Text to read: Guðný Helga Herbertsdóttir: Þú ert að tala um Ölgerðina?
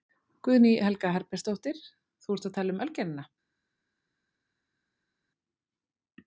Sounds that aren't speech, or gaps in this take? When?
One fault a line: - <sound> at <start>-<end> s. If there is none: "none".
none